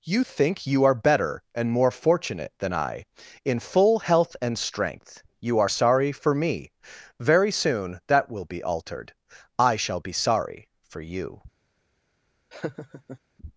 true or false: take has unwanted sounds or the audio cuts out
true